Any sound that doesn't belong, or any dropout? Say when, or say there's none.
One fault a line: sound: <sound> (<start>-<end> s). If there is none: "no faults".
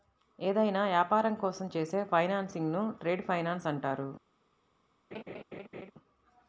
sound: laugh (5.1-5.9 s)